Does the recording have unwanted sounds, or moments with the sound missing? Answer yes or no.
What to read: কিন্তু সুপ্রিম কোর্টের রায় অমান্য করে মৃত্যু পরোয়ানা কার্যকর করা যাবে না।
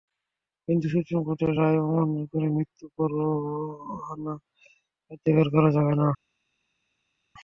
no